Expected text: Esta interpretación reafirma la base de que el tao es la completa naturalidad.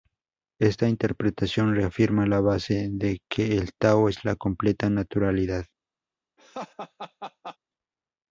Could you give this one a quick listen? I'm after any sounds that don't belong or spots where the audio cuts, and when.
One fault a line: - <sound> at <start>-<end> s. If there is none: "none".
- laugh at 6.4-7.6 s